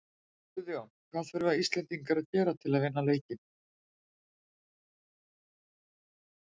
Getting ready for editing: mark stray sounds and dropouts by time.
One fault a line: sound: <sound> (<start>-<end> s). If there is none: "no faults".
no faults